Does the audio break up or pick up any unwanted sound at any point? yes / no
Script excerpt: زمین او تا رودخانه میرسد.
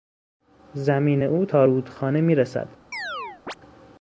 yes